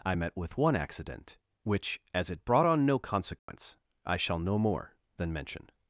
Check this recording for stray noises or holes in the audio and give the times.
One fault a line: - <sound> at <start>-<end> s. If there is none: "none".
- dropout at 3.4-3.5 s